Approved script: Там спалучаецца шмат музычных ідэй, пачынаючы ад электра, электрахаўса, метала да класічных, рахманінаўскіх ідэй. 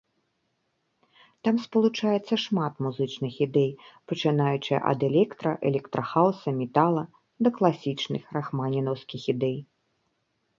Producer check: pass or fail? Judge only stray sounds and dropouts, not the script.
pass